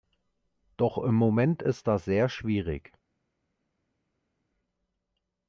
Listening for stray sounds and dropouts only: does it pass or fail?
pass